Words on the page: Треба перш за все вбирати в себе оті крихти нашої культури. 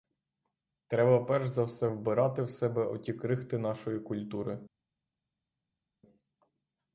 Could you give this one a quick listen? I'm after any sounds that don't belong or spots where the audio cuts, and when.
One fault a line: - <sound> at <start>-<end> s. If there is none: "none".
none